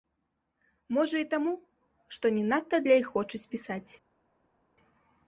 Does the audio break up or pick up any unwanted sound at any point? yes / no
no